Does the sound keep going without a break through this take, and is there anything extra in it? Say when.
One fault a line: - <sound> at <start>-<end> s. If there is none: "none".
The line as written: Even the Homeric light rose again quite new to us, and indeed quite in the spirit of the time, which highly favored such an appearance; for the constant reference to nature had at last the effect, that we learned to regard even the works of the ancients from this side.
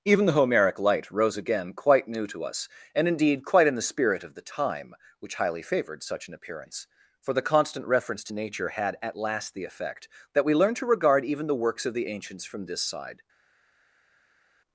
none